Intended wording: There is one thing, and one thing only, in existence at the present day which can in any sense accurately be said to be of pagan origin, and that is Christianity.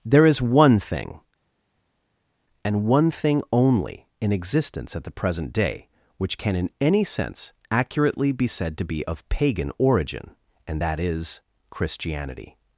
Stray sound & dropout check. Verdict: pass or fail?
pass